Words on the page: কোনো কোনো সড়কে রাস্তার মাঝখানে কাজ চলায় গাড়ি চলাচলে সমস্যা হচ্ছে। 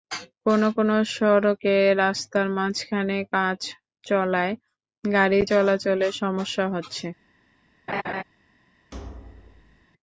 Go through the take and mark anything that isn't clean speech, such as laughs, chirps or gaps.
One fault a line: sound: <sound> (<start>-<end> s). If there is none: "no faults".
sound: laugh (7.9-8.2 s)
sound: thud (8.9-9.9 s)